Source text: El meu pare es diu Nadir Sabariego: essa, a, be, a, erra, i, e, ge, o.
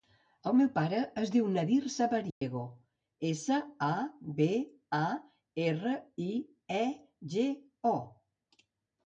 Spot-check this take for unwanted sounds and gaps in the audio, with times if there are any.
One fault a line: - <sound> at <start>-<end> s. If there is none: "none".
- dropout at 2.3-2.4 s